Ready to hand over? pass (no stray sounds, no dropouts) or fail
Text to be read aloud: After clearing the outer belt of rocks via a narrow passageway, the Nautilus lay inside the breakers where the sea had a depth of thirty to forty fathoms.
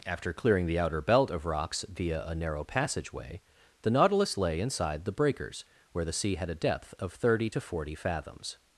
pass